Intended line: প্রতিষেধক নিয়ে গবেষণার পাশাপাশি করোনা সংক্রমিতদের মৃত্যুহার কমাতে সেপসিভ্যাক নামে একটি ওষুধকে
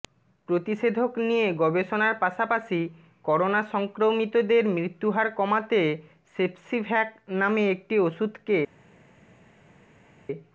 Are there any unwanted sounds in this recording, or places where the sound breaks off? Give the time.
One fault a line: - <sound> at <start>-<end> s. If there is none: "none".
none